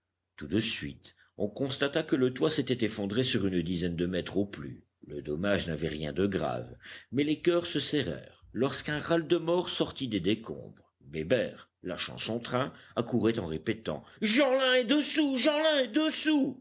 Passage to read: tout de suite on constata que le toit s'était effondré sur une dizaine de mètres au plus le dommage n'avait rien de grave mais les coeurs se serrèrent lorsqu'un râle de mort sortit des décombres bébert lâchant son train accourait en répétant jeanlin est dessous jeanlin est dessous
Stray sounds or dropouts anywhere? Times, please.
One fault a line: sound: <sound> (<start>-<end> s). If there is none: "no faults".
no faults